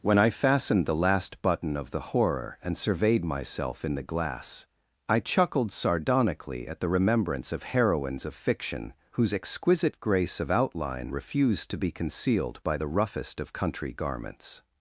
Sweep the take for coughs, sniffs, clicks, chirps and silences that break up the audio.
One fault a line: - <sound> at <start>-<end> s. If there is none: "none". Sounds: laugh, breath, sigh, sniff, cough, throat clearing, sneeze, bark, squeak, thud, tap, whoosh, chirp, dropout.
none